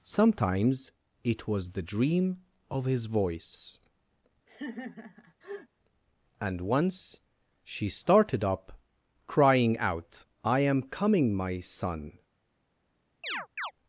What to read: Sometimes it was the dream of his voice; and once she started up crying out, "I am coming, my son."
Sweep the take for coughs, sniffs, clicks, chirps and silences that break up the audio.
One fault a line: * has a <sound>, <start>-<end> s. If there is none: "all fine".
* has a laugh, 4.5-5.7 s
* has a chirp, 13.2-13.7 s